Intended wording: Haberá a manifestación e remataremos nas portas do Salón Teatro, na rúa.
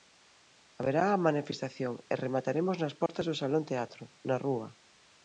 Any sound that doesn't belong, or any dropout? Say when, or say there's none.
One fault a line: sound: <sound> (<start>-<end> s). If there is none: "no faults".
sound: dropout (3.1-3.1 s)